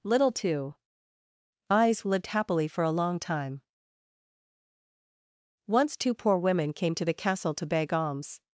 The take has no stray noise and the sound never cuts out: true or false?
true